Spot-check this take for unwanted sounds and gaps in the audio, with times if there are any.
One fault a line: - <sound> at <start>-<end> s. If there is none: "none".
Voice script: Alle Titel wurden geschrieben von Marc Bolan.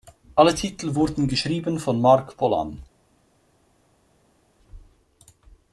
none